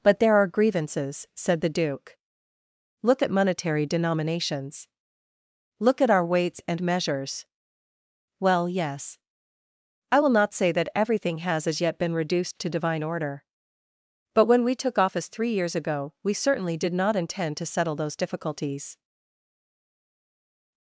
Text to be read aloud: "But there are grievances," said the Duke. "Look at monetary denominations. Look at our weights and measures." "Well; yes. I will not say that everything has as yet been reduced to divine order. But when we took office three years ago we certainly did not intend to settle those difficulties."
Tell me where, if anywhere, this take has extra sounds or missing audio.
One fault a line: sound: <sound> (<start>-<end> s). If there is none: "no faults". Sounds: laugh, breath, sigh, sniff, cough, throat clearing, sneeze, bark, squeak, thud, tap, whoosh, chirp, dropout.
no faults